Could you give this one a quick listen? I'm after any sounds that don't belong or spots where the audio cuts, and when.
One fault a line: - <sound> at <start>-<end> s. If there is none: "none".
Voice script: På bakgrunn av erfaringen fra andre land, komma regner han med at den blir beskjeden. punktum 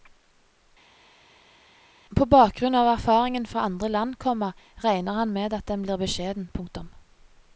none